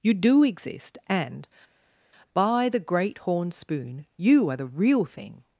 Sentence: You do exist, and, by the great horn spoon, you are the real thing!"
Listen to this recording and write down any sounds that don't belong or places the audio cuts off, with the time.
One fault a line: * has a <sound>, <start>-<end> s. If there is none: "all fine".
all fine